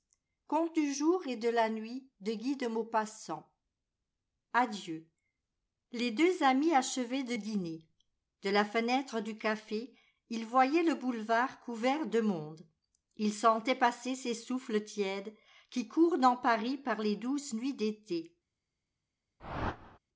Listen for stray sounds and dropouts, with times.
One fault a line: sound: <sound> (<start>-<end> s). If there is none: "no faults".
sound: whoosh (19.4-20.0 s)